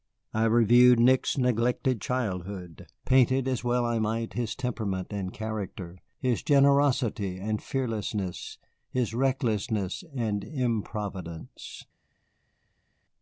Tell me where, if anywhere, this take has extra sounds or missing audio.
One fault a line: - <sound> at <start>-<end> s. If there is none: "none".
none